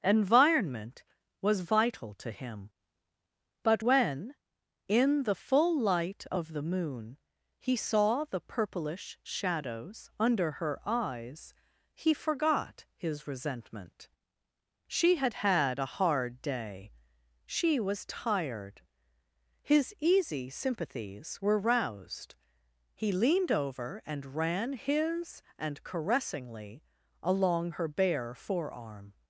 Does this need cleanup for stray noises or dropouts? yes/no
no